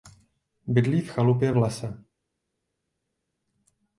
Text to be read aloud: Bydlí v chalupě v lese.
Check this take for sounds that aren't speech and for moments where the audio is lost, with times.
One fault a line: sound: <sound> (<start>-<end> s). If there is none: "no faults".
no faults